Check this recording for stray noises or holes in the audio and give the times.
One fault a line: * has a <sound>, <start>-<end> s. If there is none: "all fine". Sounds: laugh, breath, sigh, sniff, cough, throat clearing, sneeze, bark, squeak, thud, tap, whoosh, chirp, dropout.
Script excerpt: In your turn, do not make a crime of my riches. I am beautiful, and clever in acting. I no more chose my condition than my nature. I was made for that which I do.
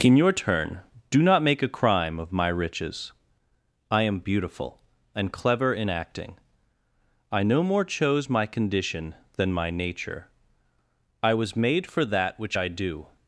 all fine